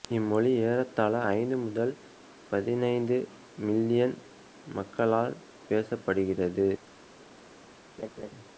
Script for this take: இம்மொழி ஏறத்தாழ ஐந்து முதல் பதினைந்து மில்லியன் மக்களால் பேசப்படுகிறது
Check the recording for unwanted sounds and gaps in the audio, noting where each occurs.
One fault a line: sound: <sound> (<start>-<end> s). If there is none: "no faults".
sound: laugh (8.0-8.3 s)